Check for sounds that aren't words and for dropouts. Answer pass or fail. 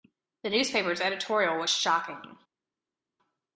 pass